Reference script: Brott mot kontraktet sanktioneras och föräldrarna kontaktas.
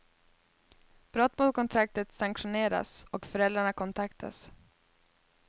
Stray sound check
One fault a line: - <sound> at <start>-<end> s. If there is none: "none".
none